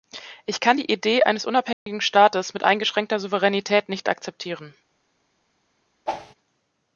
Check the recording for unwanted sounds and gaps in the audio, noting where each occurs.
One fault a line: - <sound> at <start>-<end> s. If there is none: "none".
- dropout at 1.7-1.9 s
- whoosh at 6.1-6.3 s